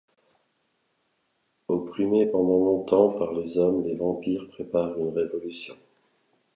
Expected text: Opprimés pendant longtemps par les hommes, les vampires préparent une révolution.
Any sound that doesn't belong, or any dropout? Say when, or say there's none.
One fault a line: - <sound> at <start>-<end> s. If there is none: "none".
none